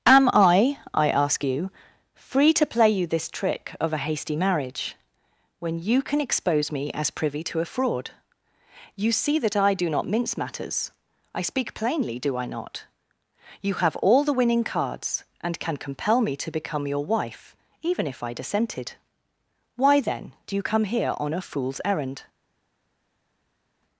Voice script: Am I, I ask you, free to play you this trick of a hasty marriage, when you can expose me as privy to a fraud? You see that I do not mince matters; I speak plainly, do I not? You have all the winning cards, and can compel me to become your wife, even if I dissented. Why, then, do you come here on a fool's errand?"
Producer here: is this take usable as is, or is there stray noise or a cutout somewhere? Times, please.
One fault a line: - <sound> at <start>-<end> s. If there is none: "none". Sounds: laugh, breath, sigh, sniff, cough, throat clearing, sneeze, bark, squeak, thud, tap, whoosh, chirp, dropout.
none